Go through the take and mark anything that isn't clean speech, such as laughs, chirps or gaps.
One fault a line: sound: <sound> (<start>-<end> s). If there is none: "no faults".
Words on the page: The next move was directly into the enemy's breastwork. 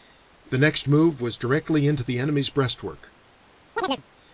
sound: chirp (3.8-4.0 s)